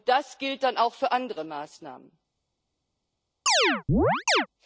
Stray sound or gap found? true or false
true